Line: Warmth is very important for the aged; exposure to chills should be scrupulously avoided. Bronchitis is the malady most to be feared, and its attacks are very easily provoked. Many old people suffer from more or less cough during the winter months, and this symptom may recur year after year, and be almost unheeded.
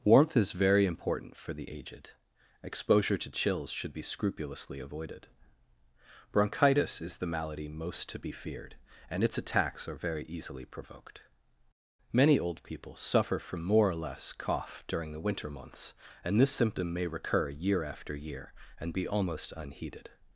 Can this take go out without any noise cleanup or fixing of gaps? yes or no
yes